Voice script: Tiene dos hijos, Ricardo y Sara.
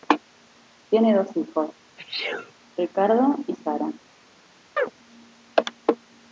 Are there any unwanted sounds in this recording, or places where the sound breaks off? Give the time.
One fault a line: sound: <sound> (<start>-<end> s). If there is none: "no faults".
sound: sneeze (2.0-2.5 s)
sound: chirp (4.8-4.9 s)